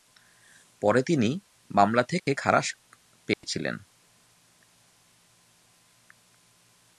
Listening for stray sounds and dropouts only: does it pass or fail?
fail